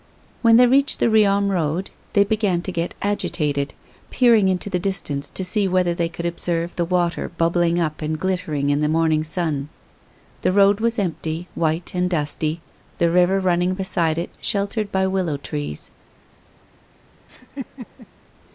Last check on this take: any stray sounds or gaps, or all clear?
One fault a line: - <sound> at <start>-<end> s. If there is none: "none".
- laugh at 17.3-18.1 s